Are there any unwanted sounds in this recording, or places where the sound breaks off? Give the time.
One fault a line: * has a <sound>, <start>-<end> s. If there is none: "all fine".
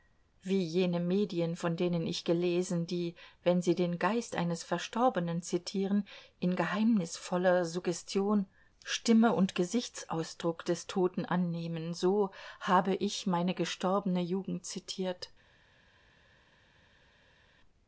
all fine